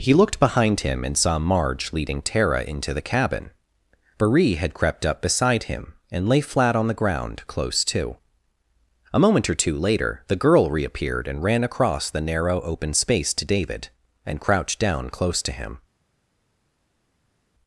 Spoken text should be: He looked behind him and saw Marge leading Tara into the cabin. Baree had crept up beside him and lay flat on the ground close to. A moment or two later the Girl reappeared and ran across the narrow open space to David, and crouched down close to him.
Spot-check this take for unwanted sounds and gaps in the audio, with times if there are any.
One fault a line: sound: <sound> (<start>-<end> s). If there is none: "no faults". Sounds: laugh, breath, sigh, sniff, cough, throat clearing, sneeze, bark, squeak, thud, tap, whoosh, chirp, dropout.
no faults